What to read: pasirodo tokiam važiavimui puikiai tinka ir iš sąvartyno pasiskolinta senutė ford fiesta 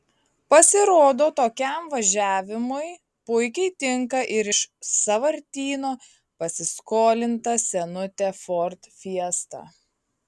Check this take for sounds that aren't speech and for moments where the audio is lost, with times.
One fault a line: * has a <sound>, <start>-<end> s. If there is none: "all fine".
all fine